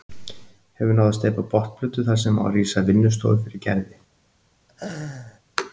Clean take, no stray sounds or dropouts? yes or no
no